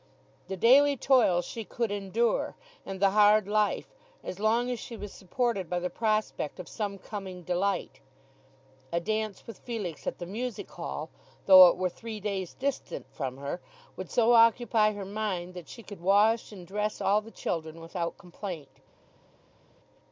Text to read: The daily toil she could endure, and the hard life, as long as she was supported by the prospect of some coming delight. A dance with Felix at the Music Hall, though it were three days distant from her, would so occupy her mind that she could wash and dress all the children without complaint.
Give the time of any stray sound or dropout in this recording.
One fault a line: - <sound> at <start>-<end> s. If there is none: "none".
none